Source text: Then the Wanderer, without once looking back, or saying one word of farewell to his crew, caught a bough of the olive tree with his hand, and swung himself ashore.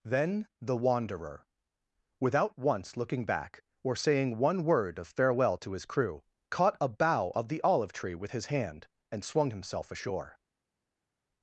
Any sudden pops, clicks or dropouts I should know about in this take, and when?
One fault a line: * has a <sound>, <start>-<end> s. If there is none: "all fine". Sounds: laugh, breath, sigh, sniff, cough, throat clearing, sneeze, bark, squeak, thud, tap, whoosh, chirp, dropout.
all fine